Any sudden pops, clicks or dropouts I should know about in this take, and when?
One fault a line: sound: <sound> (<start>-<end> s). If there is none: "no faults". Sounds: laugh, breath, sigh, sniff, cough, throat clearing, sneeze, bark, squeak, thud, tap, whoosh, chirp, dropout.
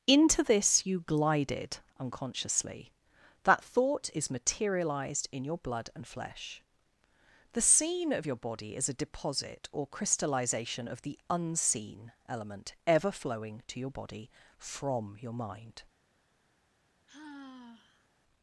sound: sigh (17.1-18.1 s)